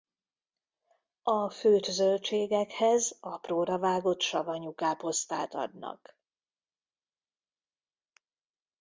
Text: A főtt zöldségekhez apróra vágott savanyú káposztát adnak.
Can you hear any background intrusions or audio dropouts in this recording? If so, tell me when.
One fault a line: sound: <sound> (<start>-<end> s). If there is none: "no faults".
no faults